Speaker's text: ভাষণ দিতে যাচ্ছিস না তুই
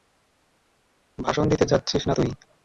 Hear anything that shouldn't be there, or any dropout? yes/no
no